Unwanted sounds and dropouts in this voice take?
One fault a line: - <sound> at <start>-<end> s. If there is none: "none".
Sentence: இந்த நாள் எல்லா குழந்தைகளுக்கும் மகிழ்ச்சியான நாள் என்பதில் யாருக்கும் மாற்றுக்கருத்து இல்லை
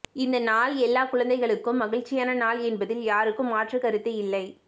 none